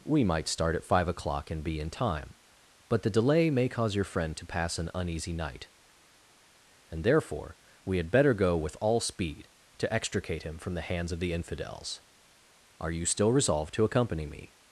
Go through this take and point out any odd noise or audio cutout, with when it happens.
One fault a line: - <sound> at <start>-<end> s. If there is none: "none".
none